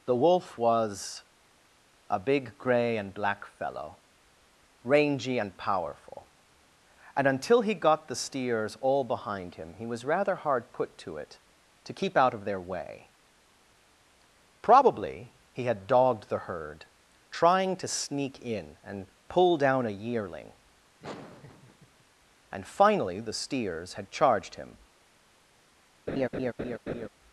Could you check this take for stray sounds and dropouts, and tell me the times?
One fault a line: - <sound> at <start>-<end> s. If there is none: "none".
- laugh at 21.0-22.0 s
- laugh at 26.1-27.1 s